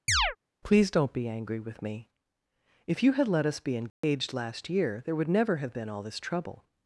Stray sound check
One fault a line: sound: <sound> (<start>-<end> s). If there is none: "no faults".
sound: chirp (0.1-0.4 s)
sound: dropout (3.9-4.0 s)